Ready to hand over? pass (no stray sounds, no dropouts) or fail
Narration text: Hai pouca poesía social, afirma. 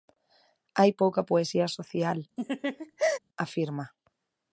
fail